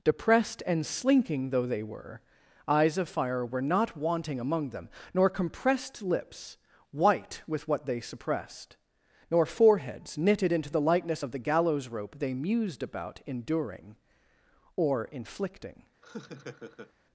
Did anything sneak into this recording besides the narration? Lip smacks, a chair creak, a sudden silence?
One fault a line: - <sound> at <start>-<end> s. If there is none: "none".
- laugh at 16.0-16.9 s